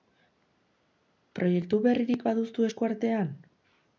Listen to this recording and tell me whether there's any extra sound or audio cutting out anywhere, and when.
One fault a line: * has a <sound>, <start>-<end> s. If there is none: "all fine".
all fine